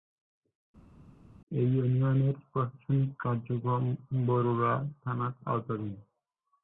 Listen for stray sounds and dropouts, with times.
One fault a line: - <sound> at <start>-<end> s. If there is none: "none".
none